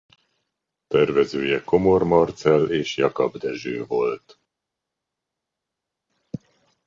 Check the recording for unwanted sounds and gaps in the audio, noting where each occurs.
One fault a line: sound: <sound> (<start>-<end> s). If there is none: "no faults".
no faults